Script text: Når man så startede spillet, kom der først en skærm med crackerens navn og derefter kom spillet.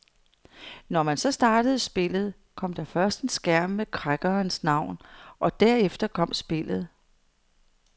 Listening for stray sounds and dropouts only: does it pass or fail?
pass